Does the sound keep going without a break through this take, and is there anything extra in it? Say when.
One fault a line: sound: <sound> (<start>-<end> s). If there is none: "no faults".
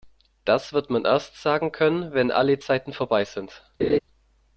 sound: laugh (3.8-4.0 s)